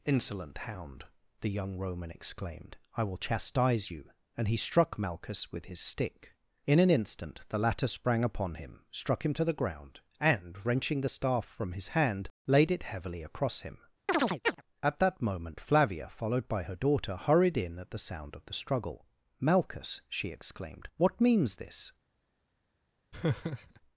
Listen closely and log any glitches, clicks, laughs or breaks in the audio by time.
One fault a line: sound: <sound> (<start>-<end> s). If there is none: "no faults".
sound: chirp (14.1-14.6 s)
sound: laugh (23.1-23.8 s)